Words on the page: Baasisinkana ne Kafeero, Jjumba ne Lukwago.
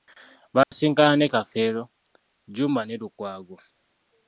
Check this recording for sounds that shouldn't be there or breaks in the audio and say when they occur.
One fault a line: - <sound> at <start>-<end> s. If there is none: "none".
- dropout at 0.6-0.7 s